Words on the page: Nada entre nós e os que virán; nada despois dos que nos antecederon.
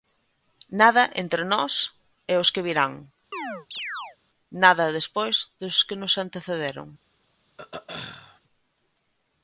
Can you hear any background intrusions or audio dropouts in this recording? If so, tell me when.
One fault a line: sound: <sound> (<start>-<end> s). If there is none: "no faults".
sound: chirp (3.3-4.2 s)
sound: throat clearing (7.6-8.4 s)